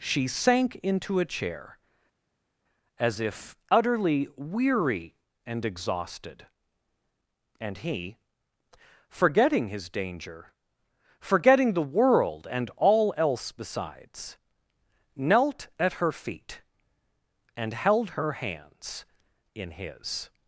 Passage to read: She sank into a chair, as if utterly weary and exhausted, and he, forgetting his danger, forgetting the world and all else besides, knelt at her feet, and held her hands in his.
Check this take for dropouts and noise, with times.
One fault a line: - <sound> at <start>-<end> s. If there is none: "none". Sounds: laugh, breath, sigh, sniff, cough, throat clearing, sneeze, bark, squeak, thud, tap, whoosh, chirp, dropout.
none